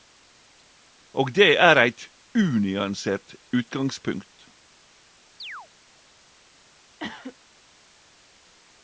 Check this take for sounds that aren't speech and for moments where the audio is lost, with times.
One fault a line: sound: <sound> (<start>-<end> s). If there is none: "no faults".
sound: chirp (5.4-5.7 s)
sound: cough (7.0-7.4 s)